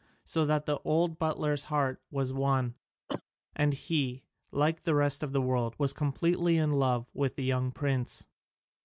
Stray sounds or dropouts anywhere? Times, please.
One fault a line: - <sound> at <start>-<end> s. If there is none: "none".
- cough at 3.1-3.2 s